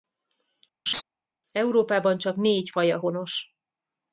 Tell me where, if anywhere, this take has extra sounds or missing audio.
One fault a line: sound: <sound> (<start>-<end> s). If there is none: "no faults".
sound: laugh (0.9-1.0 s)